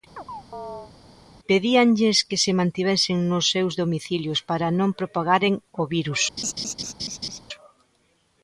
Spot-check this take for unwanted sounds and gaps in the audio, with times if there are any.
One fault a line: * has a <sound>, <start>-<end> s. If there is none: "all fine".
* has a chirp, 0.2-0.9 s
* has a laugh, 6.4-7.4 s